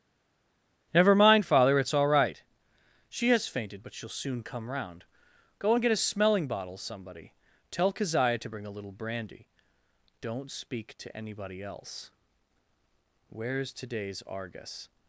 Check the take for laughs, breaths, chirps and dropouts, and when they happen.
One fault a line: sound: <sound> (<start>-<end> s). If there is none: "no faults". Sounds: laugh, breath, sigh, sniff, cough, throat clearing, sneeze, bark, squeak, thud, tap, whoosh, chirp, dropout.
no faults